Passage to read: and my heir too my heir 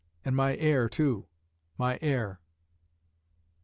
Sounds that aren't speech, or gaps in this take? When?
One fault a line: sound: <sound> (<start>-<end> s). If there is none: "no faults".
no faults